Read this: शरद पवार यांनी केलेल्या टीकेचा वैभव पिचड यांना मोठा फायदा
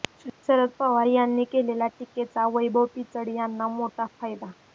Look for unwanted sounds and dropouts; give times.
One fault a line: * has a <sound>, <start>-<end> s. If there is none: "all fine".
all fine